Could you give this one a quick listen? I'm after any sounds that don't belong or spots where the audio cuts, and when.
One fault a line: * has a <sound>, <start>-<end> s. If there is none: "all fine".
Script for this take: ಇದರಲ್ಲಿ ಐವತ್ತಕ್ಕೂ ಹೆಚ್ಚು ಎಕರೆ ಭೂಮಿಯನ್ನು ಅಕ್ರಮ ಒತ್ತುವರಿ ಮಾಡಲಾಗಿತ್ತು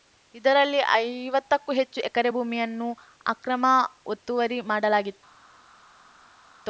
all fine